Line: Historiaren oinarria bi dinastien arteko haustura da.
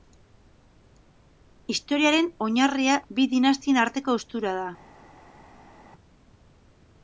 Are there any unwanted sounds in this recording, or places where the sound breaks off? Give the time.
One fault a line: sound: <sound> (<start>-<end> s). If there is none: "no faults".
no faults